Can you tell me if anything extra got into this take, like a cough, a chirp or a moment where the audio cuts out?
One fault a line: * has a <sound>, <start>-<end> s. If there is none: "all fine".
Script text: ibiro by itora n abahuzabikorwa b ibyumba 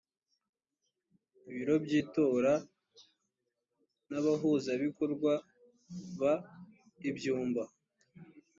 all fine